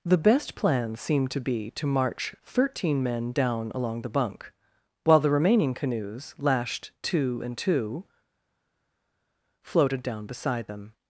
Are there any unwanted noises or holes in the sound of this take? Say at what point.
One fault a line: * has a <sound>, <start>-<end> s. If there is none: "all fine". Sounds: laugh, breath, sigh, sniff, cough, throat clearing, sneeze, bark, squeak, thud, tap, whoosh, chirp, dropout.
all fine